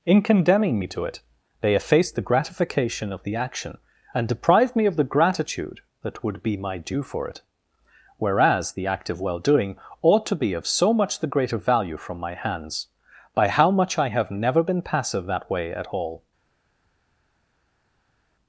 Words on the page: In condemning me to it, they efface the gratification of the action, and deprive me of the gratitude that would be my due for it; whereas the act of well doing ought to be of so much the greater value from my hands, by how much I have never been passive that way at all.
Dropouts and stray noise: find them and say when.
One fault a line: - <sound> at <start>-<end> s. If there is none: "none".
none